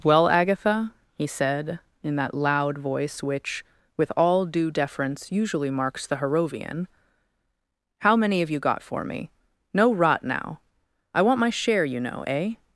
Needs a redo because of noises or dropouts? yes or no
no